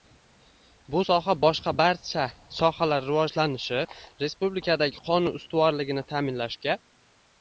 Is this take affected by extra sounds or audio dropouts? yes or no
no